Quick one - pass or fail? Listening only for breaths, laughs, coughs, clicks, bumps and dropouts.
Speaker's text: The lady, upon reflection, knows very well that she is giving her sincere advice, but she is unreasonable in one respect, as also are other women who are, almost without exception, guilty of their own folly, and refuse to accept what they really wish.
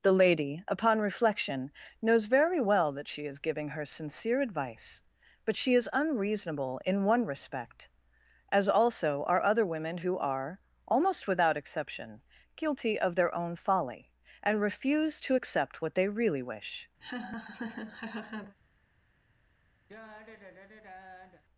fail